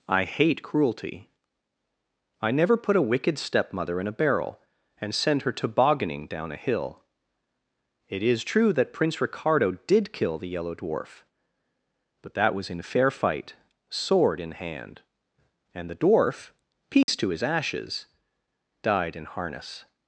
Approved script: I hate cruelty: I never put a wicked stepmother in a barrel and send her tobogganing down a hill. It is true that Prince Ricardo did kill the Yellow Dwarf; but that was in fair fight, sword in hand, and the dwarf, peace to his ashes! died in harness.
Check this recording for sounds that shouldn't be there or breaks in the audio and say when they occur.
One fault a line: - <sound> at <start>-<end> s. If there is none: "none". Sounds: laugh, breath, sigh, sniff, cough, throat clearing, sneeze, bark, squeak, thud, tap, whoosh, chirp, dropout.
- dropout at 17.0-17.1 s